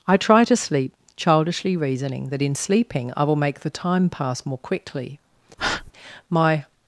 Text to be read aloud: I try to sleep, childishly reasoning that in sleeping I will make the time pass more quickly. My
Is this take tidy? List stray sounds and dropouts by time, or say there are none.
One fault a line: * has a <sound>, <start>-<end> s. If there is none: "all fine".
* has a breath, 5.6-5.9 s